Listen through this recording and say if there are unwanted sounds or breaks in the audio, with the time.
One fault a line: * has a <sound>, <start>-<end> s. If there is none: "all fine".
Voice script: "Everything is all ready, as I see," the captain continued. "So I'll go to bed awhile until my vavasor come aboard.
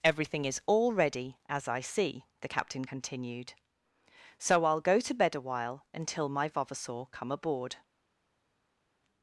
all fine